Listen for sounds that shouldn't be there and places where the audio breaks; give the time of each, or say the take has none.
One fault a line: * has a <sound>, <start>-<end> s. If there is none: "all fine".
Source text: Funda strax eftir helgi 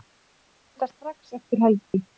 * has a dropout, 1.9-1.9 s